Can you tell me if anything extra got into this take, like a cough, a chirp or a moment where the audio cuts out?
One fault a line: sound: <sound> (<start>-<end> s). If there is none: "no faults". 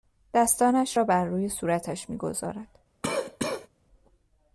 sound: cough (3.0-3.7 s)